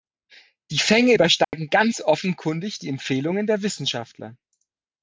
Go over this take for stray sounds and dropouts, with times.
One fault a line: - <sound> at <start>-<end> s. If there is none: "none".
- dropout at 1.4-1.5 s